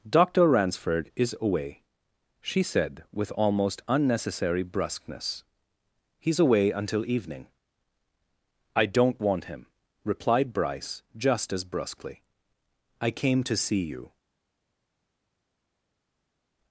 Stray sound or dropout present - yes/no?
no